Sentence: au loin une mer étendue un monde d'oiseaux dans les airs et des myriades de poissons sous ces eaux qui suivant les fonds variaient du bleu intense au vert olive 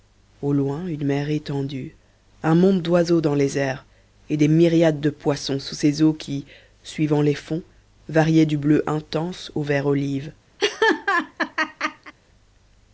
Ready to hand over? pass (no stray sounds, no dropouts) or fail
fail